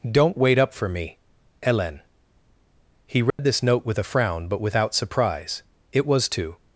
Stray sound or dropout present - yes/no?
yes